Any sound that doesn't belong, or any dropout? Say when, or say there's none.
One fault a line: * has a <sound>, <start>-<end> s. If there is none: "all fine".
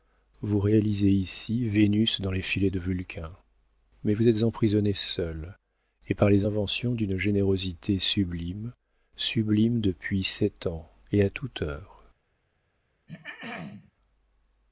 * has a throat clearing, 13.1-13.9 s